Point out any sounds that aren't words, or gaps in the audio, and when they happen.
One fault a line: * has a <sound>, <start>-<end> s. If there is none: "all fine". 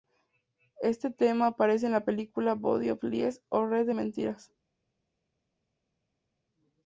all fine